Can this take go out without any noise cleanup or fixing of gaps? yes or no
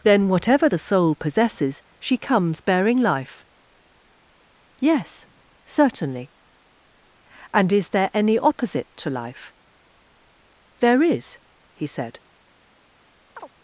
no